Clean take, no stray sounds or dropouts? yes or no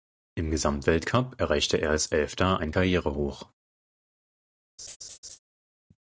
no